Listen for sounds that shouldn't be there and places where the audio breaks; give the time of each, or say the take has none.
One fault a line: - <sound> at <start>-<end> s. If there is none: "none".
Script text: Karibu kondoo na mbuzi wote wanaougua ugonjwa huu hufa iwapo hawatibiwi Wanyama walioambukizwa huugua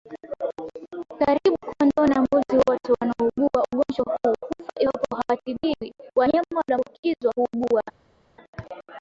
none